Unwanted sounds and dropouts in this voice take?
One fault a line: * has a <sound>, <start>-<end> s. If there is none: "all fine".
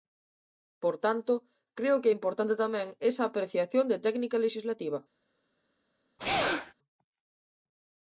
* has a sneeze, 6.2-6.7 s